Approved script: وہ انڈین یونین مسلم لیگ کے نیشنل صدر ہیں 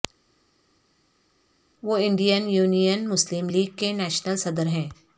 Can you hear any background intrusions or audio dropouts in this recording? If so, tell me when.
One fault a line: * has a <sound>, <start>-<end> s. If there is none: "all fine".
all fine